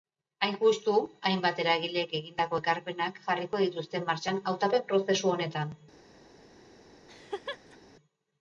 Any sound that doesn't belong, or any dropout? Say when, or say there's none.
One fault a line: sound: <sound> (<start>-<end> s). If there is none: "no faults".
sound: laugh (7.1-7.8 s)